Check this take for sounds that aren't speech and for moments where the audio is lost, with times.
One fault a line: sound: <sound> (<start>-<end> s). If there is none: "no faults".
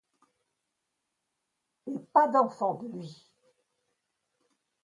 no faults